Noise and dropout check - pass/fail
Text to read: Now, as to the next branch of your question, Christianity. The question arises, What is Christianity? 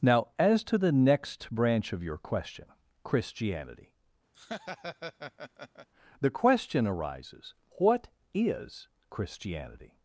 fail